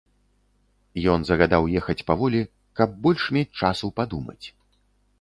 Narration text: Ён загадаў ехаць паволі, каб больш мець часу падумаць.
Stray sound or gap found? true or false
false